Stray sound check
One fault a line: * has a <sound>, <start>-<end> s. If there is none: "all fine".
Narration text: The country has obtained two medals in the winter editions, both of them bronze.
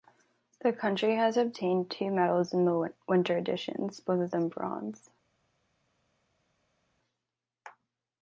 all fine